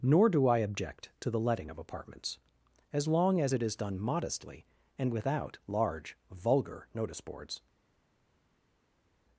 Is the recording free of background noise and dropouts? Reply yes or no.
yes